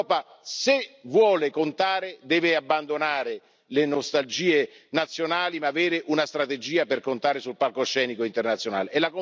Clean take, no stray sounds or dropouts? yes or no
yes